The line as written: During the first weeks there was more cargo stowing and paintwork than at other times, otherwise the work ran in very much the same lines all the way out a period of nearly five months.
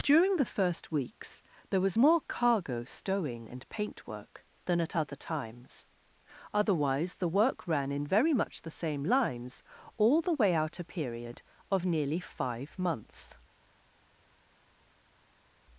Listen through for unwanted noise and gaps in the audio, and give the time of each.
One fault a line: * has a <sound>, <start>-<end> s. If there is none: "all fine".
all fine